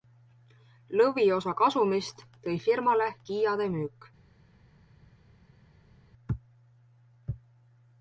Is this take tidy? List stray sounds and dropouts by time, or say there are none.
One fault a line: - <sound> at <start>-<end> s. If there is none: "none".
none